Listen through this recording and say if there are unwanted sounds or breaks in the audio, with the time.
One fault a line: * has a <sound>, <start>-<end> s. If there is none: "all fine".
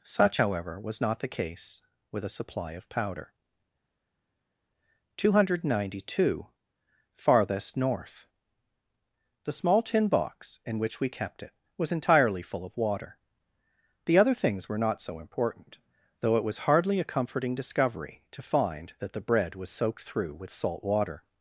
all fine